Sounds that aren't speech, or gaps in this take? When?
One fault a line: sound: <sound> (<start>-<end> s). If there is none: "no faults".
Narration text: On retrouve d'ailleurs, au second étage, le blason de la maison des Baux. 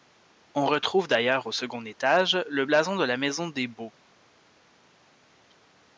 no faults